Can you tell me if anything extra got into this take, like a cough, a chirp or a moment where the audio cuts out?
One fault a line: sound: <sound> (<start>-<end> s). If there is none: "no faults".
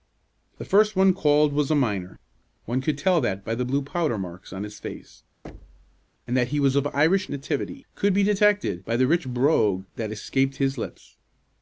sound: thud (5.4-6.1 s)